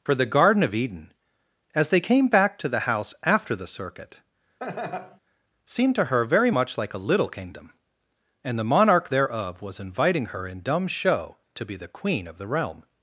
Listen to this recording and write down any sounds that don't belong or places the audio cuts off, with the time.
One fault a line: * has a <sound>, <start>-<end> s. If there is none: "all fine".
* has a laugh, 4.6-5.2 s